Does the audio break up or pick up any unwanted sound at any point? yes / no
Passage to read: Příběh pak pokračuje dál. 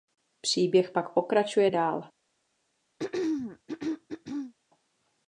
yes